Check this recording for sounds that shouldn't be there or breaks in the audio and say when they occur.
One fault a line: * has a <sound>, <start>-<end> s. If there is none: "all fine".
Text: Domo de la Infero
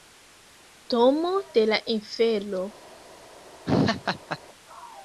* has a laugh, 3.7-4.4 s